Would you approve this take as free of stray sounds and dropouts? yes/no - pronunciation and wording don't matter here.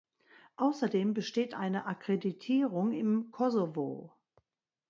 yes